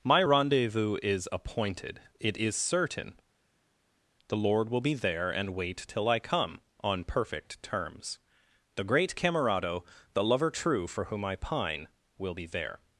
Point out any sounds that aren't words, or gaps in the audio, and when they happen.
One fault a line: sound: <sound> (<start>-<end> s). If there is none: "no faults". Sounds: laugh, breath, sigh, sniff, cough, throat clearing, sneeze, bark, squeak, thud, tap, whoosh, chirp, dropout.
no faults